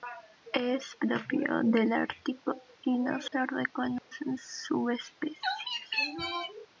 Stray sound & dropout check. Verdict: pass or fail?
fail